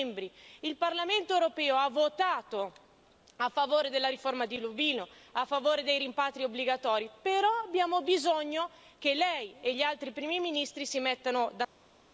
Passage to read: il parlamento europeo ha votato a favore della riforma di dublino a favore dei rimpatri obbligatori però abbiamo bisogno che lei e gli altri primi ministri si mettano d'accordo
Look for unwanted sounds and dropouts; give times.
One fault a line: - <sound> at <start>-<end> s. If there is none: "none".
none